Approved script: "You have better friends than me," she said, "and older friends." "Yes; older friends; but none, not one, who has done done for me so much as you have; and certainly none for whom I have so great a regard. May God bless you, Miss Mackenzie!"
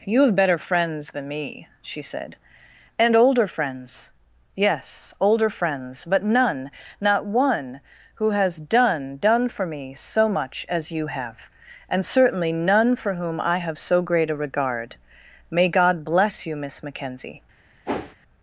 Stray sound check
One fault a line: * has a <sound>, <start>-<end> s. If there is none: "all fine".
* has a whoosh, 17.9-18.2 s